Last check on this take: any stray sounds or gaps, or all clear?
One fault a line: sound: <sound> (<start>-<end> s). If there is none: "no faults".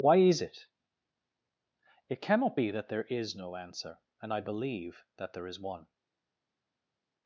no faults